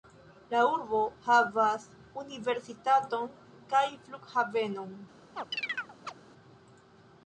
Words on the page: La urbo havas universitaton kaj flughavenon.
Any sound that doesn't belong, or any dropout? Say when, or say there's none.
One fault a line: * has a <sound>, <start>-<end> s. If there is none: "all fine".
* has a chirp, 5.3-6.1 s